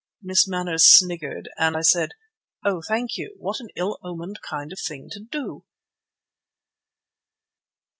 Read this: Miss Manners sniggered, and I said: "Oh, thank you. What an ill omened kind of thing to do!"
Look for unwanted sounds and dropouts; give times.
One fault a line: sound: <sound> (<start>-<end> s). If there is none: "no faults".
no faults